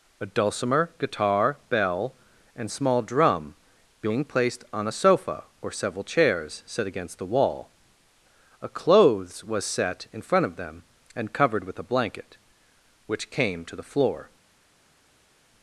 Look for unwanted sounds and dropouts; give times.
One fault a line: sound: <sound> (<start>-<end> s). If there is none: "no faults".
no faults